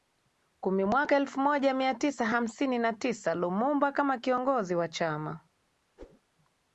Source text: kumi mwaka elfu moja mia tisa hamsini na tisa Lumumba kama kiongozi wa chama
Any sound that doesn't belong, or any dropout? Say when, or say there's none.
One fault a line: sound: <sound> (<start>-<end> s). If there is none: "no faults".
sound: whoosh (6.0-6.2 s)